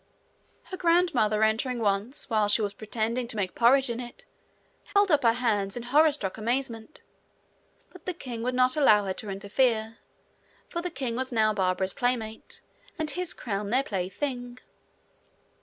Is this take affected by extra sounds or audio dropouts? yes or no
yes